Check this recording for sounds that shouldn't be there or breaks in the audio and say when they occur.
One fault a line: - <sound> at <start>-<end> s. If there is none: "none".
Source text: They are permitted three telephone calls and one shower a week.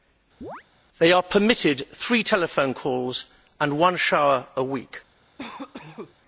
- chirp at 0.4-0.6 s
- cough at 5.4-6.1 s